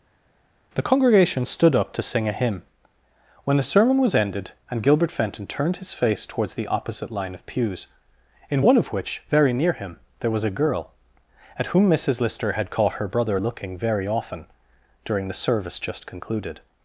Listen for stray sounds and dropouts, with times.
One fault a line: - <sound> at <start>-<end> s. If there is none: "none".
none